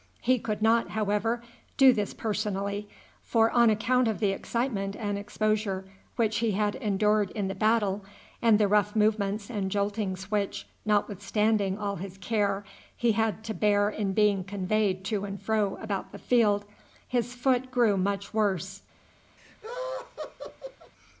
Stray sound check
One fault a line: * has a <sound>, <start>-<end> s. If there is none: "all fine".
* has a laugh, 19.4-20.9 s